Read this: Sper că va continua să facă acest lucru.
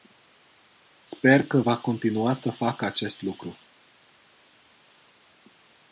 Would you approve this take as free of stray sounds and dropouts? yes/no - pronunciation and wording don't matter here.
yes